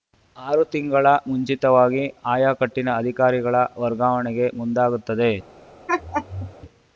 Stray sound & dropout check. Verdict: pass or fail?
fail